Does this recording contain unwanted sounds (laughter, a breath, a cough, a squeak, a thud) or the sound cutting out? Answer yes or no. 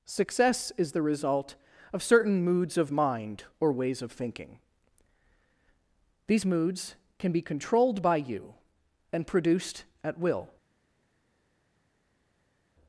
no